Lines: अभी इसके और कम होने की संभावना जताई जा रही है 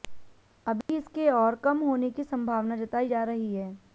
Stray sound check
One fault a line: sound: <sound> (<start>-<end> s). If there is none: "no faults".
sound: dropout (0.8-0.9 s)